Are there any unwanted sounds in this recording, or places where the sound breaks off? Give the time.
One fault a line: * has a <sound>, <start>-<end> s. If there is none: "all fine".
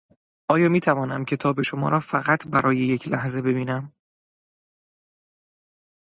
all fine